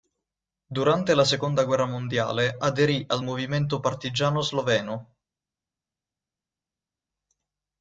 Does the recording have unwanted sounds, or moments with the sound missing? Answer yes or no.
no